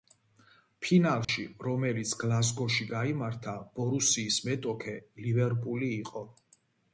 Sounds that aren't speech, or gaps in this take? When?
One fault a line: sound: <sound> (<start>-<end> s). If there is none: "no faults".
sound: dropout (1.2-1.3 s)